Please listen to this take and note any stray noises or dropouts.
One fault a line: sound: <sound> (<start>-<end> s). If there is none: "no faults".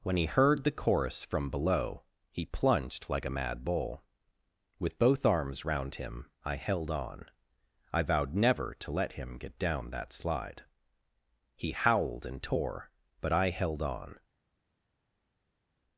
no faults